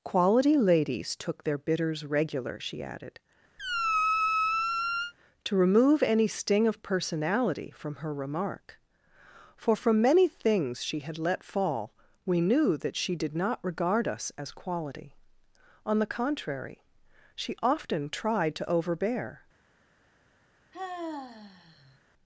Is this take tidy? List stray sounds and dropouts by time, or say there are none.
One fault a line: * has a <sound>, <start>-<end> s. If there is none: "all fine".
* has a squeak, 3.6-5.1 s
* has a sigh, 20.7-22.0 s